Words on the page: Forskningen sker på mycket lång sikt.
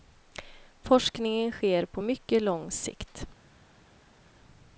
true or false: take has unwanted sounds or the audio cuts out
false